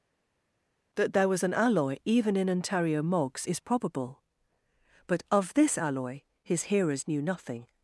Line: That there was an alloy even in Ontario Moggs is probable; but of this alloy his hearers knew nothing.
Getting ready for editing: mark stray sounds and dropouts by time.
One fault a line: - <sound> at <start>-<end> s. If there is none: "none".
none